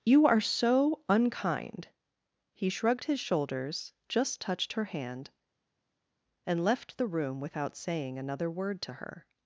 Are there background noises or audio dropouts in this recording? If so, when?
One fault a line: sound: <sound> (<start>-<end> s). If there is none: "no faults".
no faults